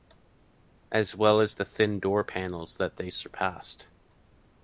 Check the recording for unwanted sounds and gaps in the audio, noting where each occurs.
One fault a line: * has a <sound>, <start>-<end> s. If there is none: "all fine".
all fine